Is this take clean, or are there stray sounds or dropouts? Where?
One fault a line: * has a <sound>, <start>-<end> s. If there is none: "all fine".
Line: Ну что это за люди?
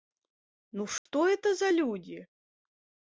* has a dropout, 1.0-1.1 s